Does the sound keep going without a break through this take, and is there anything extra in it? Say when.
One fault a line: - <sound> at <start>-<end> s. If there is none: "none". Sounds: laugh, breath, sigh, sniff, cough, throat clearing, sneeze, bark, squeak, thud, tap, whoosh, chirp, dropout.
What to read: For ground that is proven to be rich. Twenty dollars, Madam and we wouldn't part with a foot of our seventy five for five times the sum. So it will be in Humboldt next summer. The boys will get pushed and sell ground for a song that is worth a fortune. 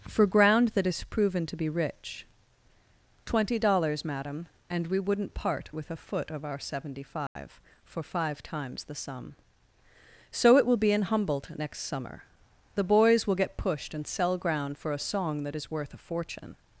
- dropout at 7.3-7.4 s